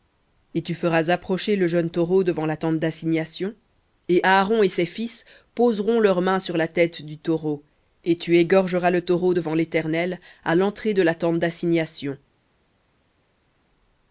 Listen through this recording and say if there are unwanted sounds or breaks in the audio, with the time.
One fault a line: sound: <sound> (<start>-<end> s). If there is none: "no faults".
no faults